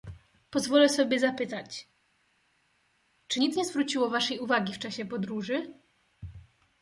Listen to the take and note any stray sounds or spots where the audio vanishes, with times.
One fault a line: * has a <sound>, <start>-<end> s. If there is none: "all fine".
all fine